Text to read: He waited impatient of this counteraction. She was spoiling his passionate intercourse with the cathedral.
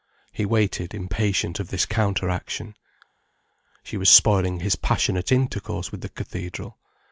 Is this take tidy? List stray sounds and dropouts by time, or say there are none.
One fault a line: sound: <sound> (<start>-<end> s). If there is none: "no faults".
no faults